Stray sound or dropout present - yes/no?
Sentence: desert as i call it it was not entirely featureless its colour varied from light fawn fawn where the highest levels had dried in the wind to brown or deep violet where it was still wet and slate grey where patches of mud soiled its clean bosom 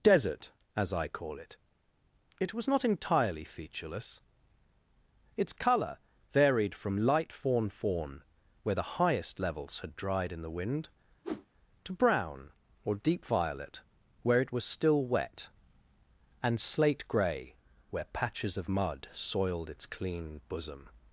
yes